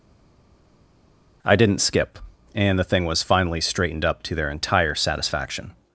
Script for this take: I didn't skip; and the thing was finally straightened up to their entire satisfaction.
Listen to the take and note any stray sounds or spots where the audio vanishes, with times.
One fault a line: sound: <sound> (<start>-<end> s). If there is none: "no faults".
no faults